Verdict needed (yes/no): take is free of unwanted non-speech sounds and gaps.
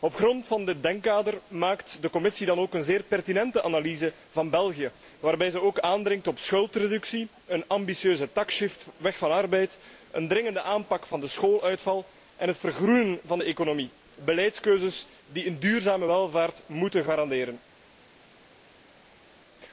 yes